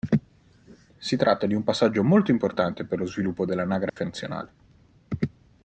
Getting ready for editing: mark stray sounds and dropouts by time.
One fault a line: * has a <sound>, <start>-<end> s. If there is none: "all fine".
* has a dropout, 3.9-4.0 s